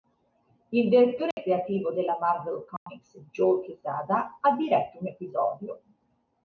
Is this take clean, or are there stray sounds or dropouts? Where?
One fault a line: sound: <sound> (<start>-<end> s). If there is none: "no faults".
sound: dropout (1.3-1.4 s)
sound: dropout (2.8-2.9 s)